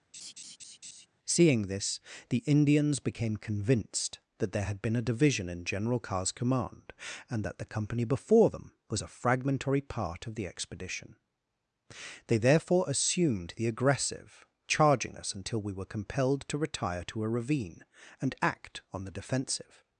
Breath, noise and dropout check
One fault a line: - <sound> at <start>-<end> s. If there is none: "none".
- laugh at 0.1-1.1 s